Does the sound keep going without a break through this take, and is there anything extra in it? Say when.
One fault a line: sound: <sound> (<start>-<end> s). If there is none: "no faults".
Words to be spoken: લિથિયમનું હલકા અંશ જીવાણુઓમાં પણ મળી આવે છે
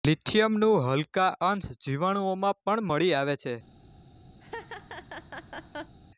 sound: laugh (4.4-5.9 s)